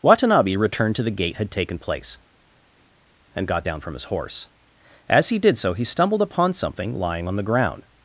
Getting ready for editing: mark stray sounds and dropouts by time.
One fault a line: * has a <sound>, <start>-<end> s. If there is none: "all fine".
all fine